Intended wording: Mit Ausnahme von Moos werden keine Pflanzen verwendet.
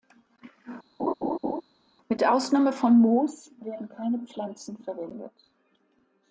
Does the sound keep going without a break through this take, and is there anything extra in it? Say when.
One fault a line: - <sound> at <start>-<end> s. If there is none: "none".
- laugh at 1.0-1.6 s